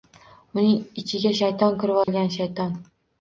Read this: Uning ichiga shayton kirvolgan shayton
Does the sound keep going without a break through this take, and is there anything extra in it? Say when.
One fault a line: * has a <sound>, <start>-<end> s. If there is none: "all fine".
* has a dropout, 2.0-2.1 s